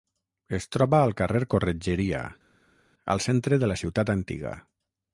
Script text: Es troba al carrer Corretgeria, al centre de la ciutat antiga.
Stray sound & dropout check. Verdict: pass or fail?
pass